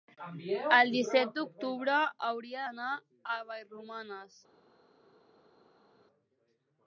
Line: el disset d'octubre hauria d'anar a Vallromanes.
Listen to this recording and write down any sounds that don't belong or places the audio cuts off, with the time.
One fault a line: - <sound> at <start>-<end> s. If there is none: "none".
none